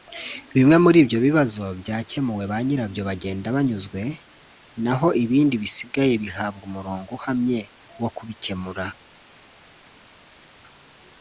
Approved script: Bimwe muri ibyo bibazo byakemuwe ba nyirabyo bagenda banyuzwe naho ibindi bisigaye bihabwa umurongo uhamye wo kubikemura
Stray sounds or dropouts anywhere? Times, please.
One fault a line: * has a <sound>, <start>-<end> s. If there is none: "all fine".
all fine